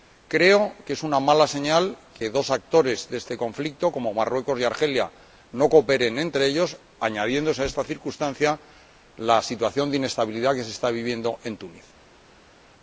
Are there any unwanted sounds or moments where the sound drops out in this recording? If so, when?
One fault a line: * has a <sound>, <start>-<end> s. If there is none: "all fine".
all fine